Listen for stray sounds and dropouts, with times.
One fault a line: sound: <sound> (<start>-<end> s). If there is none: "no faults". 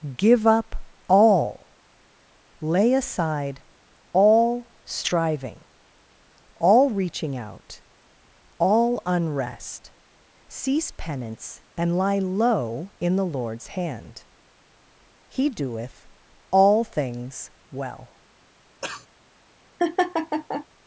sound: cough (18.8-19.1 s)
sound: laugh (19.8-20.7 s)